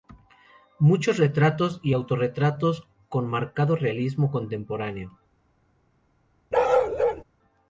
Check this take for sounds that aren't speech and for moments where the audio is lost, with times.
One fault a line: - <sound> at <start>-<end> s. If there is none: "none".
- bark at 6.5-7.2 s